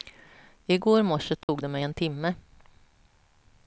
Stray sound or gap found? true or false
true